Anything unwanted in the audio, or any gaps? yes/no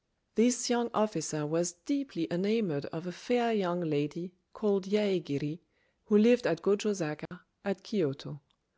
yes